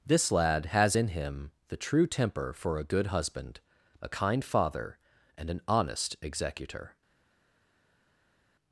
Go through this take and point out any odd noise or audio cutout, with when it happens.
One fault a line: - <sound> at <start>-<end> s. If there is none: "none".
none